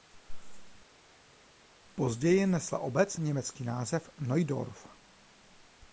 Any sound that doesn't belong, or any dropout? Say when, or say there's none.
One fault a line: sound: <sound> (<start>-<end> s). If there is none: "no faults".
no faults